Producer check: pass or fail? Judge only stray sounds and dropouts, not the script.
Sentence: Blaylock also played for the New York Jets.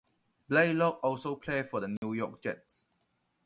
fail